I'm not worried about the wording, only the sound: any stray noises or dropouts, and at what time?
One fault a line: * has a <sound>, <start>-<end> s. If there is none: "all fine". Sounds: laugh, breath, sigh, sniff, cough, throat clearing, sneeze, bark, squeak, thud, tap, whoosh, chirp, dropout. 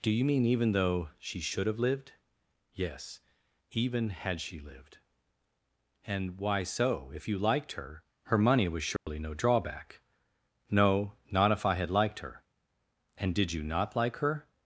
* has a dropout, 9.0-9.1 s